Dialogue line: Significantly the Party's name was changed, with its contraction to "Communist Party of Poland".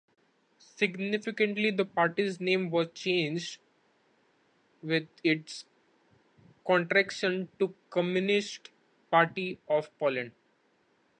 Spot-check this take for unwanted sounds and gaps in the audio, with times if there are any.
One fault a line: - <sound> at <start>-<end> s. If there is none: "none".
none